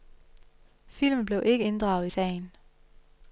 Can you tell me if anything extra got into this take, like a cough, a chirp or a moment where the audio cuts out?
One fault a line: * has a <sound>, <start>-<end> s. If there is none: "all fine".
all fine